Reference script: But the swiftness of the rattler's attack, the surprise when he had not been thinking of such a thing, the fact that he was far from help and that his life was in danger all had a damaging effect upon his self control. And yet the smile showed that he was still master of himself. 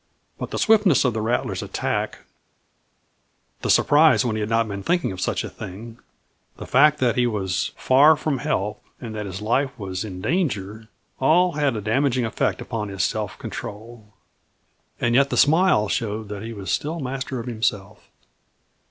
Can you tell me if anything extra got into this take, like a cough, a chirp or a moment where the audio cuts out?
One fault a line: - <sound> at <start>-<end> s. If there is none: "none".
none